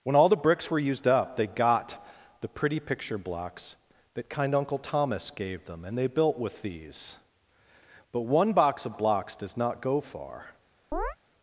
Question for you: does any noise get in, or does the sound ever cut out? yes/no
yes